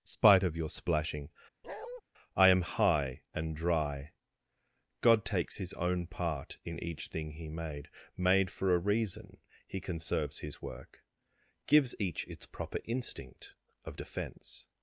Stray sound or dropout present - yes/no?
yes